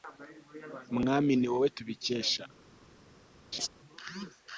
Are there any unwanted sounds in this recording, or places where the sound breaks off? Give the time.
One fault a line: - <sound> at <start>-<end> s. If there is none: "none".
- laugh at 3.5-3.7 s